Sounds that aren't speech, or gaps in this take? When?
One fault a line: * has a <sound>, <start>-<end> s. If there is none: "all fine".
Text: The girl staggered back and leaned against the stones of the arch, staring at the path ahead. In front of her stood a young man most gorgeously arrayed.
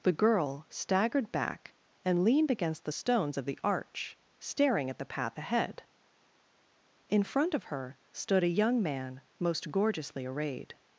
all fine